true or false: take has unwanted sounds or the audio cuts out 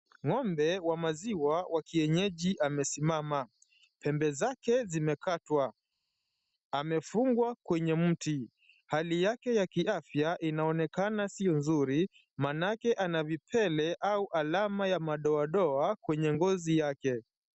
false